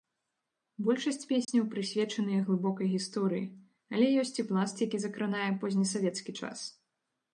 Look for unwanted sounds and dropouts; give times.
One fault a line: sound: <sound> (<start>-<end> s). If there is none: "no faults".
sound: dropout (1.4-1.5 s)